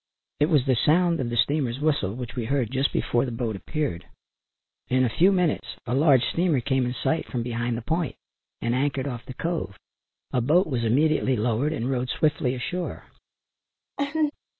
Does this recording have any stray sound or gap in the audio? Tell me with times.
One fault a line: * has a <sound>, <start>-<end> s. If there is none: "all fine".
* has a laugh, 14.0-14.3 s